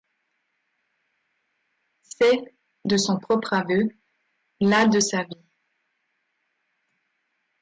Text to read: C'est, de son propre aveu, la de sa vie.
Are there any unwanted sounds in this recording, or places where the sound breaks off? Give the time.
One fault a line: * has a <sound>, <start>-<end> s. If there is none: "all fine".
all fine